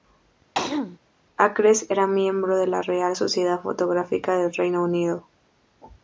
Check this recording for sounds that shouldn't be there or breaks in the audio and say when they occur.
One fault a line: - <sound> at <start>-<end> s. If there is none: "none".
- throat clearing at 0.5-1.0 s